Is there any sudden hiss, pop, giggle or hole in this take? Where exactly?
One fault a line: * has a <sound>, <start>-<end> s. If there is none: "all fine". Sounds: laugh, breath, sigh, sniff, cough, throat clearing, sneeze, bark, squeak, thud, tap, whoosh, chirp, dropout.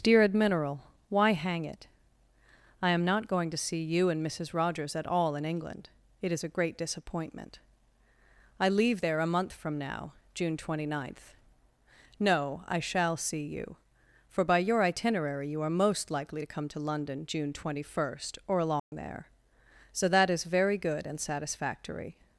* has a dropout, 18.8-18.9 s